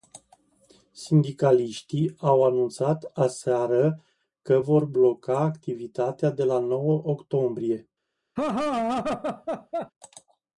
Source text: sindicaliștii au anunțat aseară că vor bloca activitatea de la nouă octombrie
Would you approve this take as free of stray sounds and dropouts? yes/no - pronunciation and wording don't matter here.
no